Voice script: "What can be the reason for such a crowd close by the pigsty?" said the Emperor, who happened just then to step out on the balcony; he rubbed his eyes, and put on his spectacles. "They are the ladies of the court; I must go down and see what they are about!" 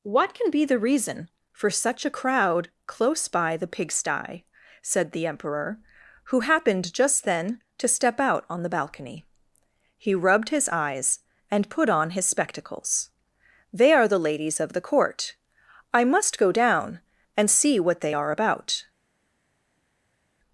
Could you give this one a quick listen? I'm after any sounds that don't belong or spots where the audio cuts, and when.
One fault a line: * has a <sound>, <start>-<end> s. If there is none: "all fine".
all fine